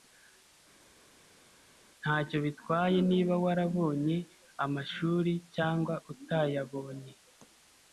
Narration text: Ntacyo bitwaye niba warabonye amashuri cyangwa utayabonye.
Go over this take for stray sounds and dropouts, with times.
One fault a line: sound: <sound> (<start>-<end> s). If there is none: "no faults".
no faults